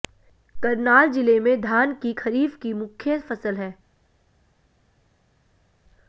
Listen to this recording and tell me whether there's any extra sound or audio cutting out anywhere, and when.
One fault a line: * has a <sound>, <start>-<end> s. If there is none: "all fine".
all fine